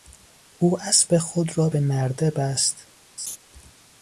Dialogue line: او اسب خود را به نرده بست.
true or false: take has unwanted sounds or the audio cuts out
true